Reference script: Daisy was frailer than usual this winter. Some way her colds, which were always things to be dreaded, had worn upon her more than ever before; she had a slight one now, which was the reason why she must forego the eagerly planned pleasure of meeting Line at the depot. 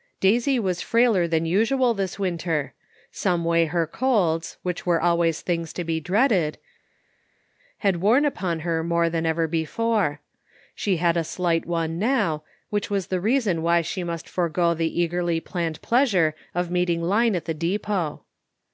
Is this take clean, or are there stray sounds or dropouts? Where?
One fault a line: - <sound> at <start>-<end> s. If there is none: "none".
none